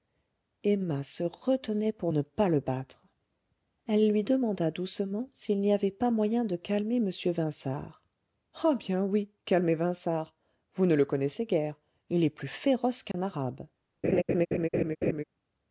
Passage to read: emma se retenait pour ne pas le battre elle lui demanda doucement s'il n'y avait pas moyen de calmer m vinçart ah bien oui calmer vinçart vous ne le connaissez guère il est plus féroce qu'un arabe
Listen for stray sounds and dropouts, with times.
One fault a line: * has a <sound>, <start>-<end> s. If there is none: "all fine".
* has a dropout, 13.1-13.1 s
* has a laugh, 14.0-15.2 s